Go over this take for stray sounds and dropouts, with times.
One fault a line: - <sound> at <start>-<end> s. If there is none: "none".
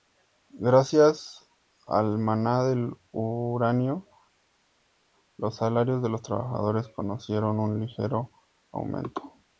none